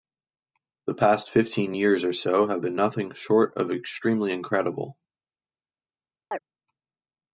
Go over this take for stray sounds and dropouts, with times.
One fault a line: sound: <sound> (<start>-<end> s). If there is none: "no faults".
sound: chirp (6.3-6.4 s)